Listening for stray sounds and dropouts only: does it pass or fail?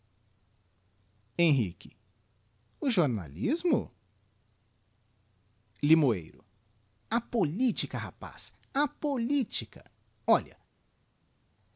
pass